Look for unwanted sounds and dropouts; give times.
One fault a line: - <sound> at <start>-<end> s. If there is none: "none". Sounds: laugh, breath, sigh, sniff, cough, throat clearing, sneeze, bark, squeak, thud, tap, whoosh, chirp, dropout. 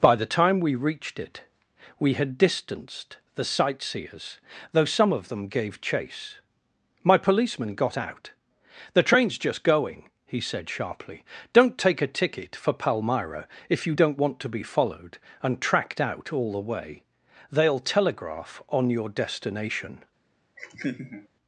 - laugh at 20.6-21.3 s